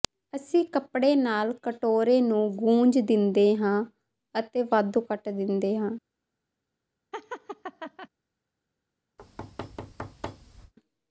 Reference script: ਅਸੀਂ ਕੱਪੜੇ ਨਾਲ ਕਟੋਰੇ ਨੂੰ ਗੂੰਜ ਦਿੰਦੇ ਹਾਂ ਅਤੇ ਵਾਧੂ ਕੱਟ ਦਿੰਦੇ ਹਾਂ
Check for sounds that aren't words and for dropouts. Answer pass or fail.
fail